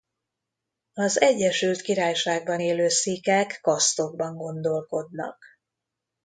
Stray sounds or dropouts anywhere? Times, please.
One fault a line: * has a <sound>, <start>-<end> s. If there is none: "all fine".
all fine